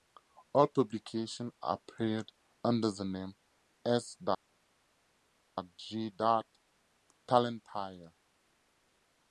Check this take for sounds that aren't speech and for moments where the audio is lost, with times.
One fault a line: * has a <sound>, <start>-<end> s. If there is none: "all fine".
all fine